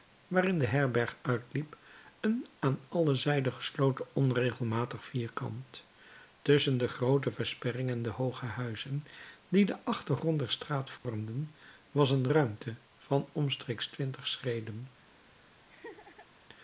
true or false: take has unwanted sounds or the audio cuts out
true